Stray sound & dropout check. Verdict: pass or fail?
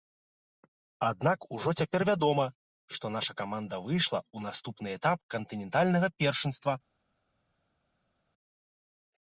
pass